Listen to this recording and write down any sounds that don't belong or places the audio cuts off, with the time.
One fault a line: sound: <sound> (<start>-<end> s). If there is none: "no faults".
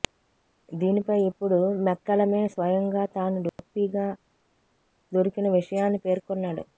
sound: dropout (3.5-3.6 s)